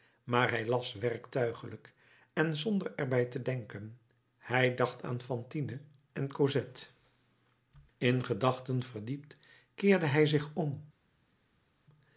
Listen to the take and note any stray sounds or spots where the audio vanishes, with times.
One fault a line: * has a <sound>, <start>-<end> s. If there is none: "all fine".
all fine